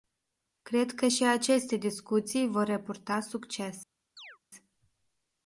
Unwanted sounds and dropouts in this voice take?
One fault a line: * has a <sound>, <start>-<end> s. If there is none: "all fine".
* has a chirp, 4.2-4.4 s